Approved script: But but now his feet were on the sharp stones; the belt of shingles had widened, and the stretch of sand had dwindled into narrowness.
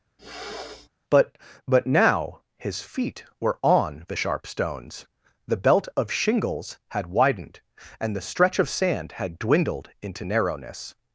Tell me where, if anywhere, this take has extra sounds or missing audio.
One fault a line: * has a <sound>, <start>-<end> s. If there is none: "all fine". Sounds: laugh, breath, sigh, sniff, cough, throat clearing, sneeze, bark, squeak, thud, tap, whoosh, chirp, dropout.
* has a throat clearing, 0.2-0.9 s